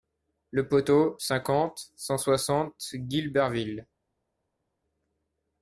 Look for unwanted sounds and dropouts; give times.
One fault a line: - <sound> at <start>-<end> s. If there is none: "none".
none